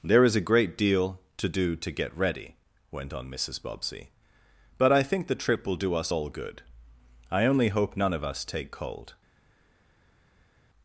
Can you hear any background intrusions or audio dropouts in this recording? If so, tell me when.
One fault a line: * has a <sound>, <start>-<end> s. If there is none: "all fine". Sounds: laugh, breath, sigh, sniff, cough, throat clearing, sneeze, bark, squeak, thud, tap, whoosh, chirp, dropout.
all fine